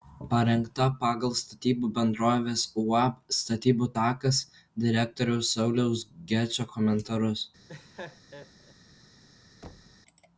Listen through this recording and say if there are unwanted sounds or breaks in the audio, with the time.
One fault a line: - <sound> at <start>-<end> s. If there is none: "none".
- laugh at 7.7-8.7 s
- thud at 9.6-10.0 s